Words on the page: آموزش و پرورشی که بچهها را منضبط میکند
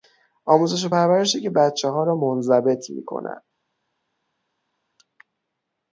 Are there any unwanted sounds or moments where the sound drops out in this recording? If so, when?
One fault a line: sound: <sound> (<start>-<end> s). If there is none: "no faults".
no faults